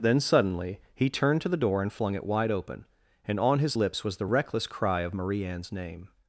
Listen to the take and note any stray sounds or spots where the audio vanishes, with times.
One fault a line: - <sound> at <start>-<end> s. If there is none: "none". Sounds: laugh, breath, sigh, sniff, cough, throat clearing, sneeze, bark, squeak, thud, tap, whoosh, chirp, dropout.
none